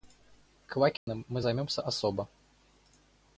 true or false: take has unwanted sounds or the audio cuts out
true